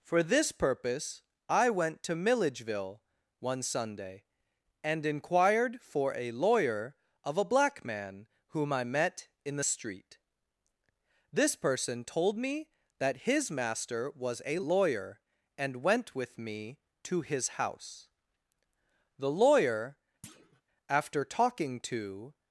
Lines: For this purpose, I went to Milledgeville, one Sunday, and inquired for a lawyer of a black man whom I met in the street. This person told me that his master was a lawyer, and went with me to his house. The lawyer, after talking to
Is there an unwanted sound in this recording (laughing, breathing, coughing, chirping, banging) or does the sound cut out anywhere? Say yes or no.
yes